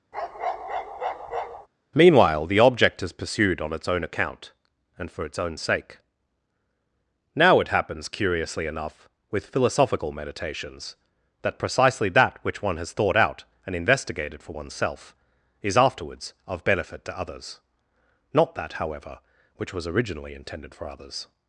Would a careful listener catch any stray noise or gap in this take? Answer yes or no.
yes